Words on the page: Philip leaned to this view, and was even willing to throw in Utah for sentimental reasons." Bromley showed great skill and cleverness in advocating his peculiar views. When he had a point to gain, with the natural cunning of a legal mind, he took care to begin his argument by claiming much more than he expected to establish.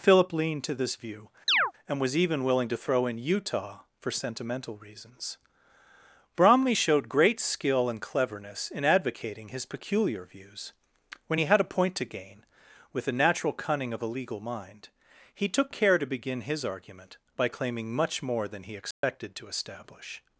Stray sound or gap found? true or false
true